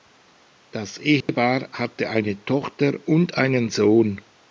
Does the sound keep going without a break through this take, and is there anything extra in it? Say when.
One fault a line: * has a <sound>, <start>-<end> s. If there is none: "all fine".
* has a dropout, 1.2-1.3 s